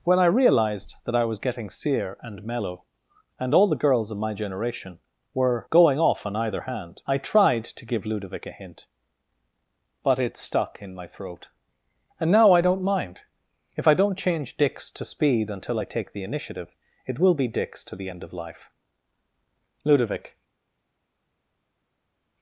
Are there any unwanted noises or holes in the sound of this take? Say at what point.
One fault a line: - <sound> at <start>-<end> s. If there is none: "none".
none